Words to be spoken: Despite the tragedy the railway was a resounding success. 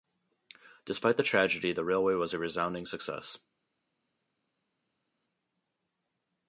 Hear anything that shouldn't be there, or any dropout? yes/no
no